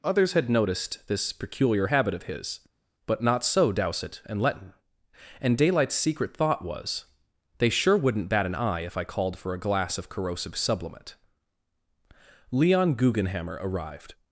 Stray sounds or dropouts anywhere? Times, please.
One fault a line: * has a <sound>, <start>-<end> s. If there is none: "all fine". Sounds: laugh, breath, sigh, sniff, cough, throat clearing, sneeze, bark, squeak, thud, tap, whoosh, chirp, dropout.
all fine